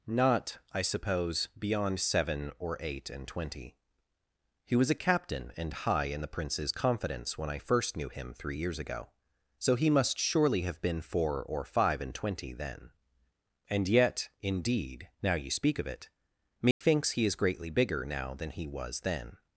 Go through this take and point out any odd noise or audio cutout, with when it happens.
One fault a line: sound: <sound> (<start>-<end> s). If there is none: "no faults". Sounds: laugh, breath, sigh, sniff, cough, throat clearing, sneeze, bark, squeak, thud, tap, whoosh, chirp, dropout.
sound: dropout (16.7-16.8 s)